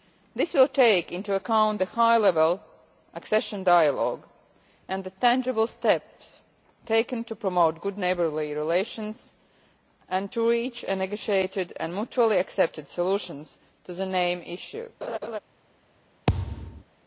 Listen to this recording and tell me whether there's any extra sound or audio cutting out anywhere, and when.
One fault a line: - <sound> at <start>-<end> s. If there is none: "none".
- laugh at 15.0-15.4 s
- thud at 16.3-16.8 s